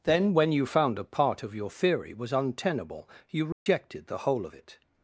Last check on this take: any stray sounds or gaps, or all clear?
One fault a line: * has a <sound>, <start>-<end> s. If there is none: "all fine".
* has a dropout, 3.5-3.7 s